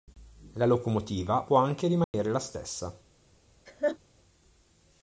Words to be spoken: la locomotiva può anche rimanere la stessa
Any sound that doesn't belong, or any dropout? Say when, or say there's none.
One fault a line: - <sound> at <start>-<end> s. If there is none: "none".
- dropout at 2.0-2.1 s
- laugh at 3.7-4.0 s